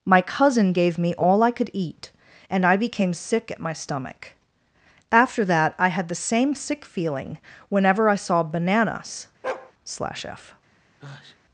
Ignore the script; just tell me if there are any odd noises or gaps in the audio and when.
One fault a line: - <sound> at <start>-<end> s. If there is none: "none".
- bark at 9.4-9.7 s
- sneeze at 11.0-11.4 s